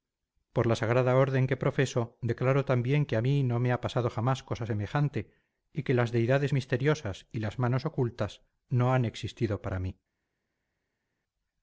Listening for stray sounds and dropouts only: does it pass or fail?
pass